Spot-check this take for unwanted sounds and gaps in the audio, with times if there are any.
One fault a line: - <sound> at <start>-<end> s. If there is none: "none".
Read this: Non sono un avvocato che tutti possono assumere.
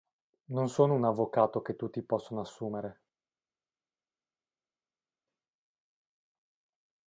none